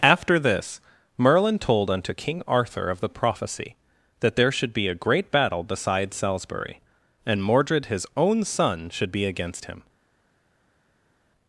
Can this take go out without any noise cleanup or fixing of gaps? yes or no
yes